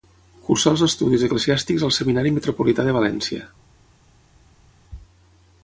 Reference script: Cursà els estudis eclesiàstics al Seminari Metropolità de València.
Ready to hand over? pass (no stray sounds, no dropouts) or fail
pass